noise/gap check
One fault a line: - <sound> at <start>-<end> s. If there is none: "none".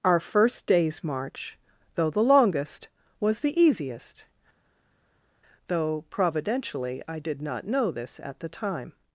none